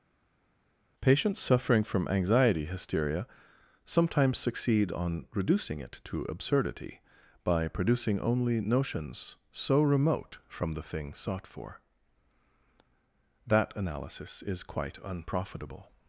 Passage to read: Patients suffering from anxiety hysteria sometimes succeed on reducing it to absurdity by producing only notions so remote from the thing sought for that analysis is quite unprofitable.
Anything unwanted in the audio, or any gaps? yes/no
no